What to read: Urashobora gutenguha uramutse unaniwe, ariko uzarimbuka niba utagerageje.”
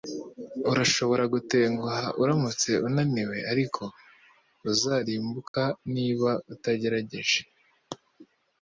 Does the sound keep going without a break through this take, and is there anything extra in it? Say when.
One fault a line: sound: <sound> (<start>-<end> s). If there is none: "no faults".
sound: dropout (5.5-5.5 s)